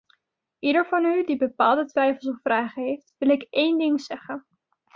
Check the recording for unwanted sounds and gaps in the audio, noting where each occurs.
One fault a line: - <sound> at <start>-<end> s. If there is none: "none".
none